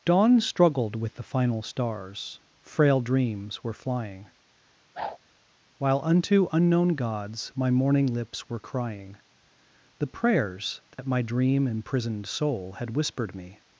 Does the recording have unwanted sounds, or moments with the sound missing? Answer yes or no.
yes